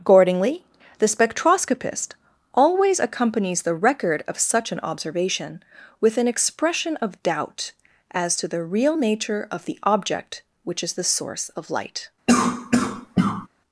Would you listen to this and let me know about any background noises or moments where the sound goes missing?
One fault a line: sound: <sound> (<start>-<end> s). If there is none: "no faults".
sound: cough (12.3-13.5 s)